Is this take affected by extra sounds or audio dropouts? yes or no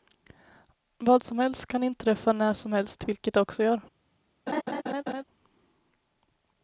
yes